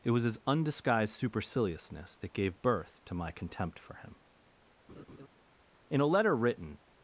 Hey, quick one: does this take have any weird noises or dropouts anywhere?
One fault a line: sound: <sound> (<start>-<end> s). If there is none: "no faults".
sound: laugh (4.9-5.3 s)